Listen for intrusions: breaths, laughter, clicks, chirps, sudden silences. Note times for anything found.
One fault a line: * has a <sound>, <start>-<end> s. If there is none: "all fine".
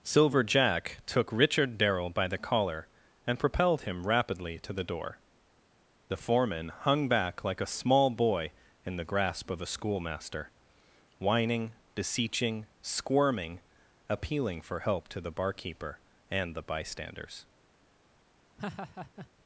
* has a laugh, 18.6-19.3 s